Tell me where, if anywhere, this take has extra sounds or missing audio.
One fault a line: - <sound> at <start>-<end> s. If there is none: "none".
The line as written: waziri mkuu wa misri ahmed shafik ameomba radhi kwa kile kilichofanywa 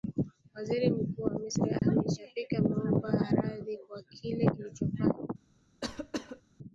- dropout at 1.8-1.8 s
- cough at 5.8-6.4 s